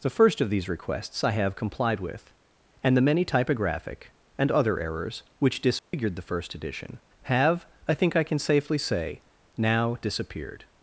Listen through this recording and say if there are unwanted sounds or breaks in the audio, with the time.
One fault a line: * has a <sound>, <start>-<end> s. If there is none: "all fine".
* has a dropout, 5.8-5.9 s